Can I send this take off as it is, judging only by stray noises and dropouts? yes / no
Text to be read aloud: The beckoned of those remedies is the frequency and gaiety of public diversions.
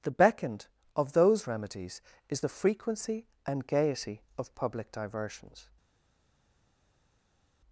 yes